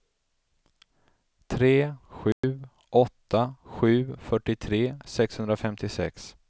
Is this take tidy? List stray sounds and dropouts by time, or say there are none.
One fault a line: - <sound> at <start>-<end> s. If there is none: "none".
- dropout at 2.3-2.4 s